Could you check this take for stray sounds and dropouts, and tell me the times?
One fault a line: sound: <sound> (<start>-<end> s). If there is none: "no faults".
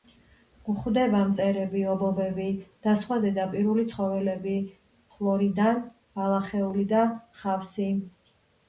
no faults